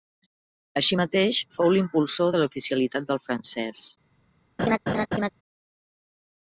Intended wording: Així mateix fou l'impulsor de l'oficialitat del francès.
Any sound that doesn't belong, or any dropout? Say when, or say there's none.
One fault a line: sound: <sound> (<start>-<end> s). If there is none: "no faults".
sound: laugh (4.6-5.3 s)